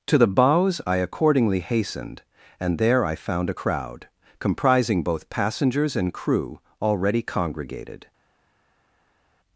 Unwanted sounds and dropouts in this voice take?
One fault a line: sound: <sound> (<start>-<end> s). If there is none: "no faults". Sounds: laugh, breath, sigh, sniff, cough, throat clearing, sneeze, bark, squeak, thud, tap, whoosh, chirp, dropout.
no faults